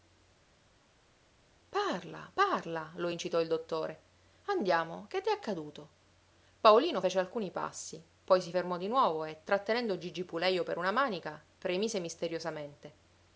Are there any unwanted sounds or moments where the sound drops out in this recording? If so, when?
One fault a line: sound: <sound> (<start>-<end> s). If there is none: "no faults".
no faults